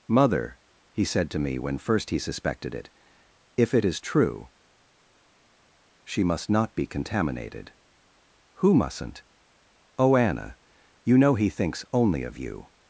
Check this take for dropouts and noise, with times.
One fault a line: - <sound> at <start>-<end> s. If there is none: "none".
none